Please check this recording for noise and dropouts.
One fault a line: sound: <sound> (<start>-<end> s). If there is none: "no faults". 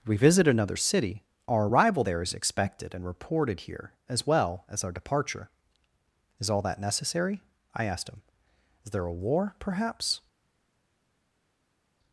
no faults